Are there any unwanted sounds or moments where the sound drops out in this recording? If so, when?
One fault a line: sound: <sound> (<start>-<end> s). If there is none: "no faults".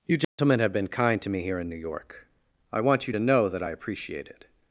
sound: dropout (0.2-0.4 s)